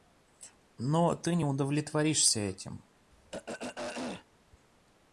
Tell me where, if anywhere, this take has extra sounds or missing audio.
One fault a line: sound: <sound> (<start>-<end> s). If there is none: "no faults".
sound: throat clearing (3.1-4.3 s)